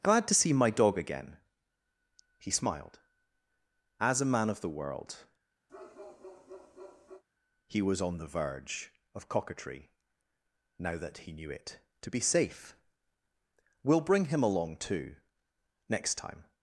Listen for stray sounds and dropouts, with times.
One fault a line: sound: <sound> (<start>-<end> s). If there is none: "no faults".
sound: bark (5.7-7.2 s)